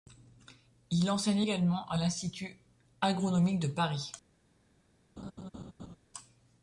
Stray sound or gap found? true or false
true